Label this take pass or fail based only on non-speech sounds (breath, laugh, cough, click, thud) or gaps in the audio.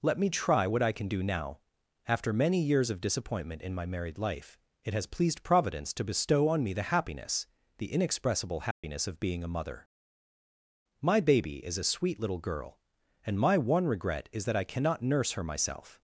fail